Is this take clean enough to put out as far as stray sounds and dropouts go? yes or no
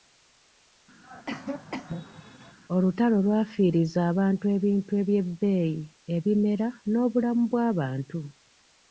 no